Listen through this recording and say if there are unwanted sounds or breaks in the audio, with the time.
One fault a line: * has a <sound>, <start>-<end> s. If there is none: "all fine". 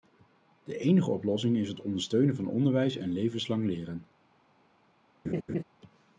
* has a laugh, 5.2-5.6 s